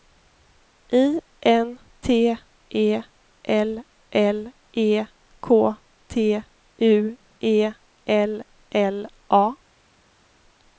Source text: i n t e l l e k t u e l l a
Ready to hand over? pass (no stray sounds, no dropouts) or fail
pass